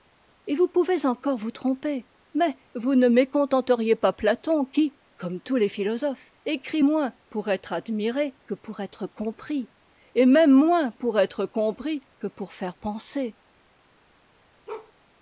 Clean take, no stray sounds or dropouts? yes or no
no